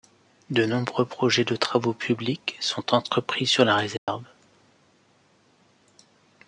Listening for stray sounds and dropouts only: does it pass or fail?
fail